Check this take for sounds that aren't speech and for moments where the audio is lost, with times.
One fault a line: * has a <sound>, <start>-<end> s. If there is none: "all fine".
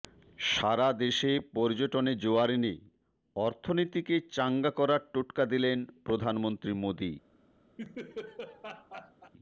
* has a laugh, 7.8-9.3 s